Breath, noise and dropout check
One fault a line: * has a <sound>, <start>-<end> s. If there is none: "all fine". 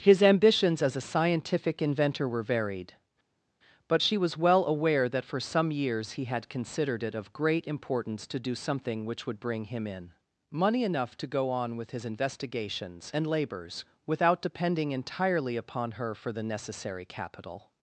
all fine